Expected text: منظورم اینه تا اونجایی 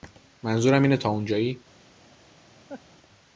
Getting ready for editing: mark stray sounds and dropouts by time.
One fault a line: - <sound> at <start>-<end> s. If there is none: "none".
- laugh at 2.7-2.8 s